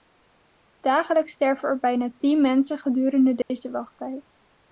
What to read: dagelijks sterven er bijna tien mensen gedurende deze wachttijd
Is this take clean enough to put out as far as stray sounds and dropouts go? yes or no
no